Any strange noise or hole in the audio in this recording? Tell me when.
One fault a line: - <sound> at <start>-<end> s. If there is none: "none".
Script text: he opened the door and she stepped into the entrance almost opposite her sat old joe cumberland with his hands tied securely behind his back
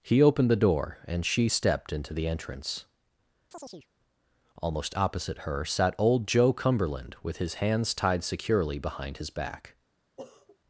- chirp at 3.5-3.9 s
- sniff at 10.2-10.6 s